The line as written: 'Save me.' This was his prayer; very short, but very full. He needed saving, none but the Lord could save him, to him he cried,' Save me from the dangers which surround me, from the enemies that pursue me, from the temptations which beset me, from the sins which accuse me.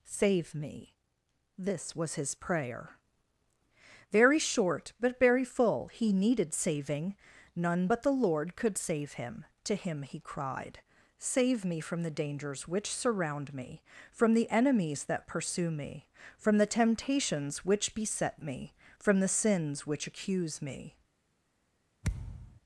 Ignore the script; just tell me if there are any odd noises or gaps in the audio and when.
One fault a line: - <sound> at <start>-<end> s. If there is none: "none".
- thud at 22.0-22.6 s